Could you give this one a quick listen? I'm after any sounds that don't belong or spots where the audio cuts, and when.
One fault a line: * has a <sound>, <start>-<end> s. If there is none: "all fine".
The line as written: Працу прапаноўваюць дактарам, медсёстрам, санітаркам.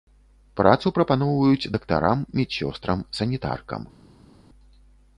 all fine